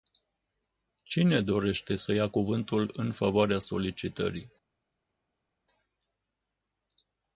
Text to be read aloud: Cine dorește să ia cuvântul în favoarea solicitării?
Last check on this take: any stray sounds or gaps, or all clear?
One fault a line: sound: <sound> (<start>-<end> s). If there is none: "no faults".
no faults